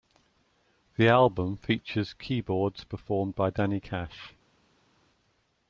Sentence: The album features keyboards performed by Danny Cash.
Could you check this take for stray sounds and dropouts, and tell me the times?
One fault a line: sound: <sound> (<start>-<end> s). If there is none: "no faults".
no faults